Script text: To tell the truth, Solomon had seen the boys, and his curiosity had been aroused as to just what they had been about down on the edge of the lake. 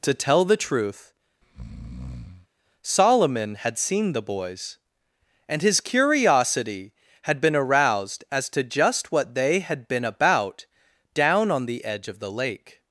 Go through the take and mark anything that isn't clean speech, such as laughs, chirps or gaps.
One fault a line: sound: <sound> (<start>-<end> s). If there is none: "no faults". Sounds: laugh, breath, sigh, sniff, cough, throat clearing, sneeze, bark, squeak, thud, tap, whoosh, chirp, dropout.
sound: breath (1.4-2.5 s)